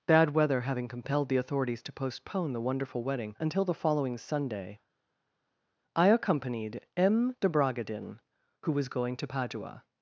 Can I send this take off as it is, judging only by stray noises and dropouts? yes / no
yes